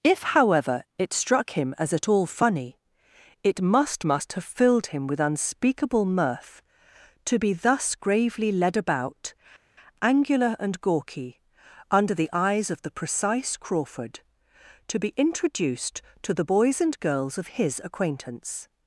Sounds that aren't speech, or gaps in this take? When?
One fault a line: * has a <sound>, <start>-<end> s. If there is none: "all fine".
all fine